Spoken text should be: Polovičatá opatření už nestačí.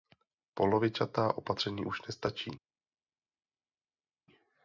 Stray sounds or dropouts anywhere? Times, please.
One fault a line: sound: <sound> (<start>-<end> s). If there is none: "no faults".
no faults